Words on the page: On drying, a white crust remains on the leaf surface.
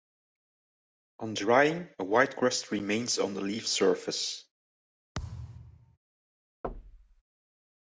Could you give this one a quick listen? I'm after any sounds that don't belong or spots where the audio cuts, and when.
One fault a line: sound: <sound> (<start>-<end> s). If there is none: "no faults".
sound: thud (5.1-6.0 s)
sound: thud (6.6-7.2 s)